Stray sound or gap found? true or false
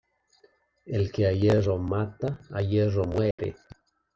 true